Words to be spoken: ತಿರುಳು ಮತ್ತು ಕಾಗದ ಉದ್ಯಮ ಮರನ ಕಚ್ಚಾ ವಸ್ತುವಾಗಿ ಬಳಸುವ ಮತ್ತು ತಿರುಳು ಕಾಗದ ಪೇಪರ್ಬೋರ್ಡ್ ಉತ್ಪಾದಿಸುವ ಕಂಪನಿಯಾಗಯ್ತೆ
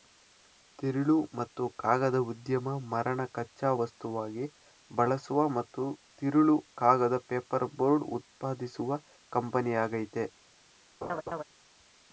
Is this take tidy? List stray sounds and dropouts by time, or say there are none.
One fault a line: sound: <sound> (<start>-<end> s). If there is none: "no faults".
sound: laugh (11.0-11.4 s)